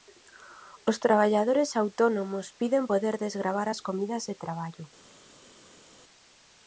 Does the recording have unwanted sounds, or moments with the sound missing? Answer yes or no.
no